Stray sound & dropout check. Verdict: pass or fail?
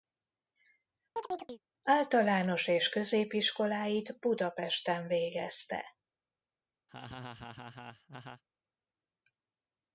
fail